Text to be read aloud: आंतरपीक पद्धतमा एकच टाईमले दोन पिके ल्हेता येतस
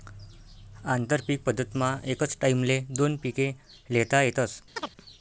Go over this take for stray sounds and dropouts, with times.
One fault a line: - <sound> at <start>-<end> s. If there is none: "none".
- chirp at 4.8-4.9 s